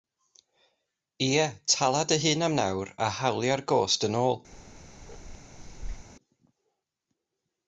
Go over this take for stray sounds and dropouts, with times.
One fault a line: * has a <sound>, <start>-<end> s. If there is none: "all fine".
* has a bark, 4.5-6.1 s